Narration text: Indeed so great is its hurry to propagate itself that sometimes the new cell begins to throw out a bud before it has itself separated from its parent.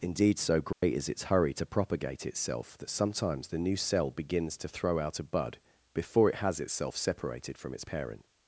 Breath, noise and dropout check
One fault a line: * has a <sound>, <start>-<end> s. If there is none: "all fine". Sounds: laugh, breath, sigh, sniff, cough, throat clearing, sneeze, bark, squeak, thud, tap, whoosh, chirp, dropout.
* has a dropout, 0.7-0.8 s